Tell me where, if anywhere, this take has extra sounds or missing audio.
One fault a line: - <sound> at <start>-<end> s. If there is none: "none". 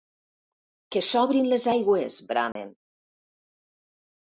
- dropout at 2.5-2.6 s